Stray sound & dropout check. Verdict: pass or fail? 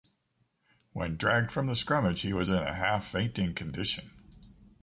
pass